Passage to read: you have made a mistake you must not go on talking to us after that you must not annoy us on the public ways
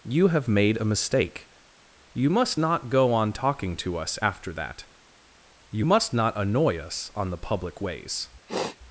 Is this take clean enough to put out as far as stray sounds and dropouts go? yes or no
no